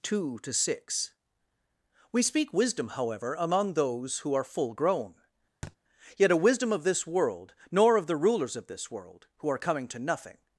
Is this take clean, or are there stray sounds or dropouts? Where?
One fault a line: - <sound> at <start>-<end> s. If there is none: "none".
- thud at 5.6-5.8 s